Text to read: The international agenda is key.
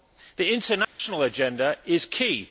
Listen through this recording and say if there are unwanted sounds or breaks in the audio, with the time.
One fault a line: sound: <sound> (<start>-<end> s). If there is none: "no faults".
sound: dropout (0.8-1.0 s)